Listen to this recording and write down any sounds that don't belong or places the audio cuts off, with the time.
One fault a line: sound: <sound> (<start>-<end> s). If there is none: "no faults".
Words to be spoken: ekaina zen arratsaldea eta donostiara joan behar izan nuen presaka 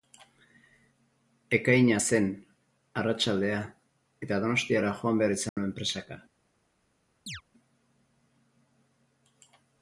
sound: dropout (5.5-5.6 s)
sound: chirp (7.3-7.4 s)